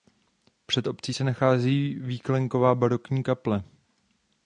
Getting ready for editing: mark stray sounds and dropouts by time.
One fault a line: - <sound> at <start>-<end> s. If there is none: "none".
none